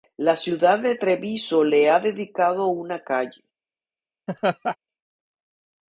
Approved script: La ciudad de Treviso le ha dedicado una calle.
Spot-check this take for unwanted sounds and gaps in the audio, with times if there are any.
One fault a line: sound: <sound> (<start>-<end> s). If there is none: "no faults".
sound: laugh (4.3-4.8 s)